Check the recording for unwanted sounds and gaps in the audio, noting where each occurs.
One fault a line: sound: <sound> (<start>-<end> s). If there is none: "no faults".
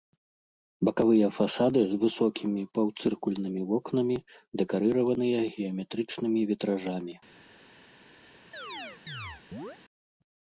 sound: chirp (8.5-9.8 s)